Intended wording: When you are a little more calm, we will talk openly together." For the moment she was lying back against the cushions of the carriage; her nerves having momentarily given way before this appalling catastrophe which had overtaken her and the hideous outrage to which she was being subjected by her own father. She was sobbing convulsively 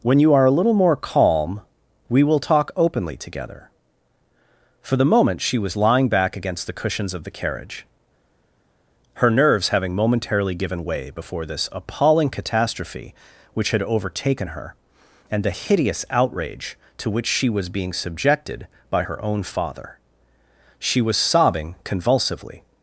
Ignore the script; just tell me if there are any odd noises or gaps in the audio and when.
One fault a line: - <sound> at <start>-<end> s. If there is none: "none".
none